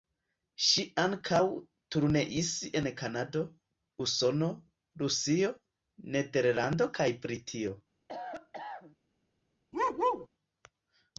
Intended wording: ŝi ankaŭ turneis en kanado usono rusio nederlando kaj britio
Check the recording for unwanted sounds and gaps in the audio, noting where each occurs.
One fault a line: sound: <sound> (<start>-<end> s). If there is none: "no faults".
sound: cough (8.1-9.0 s)
sound: bark (9.7-10.3 s)